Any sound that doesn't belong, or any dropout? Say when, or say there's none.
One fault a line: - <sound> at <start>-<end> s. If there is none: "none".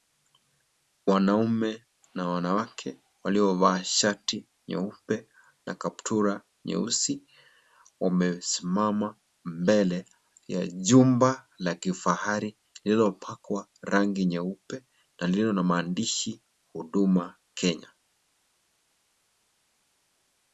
none